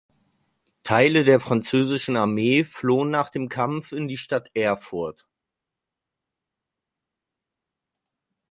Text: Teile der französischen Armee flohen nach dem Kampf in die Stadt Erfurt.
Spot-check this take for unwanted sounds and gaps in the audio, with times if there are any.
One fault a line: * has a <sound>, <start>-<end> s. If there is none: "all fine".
all fine